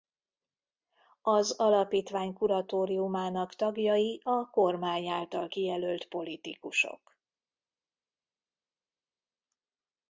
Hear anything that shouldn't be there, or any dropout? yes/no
no